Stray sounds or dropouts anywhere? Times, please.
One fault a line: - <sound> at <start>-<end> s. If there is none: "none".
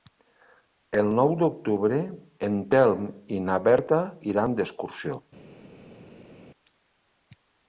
none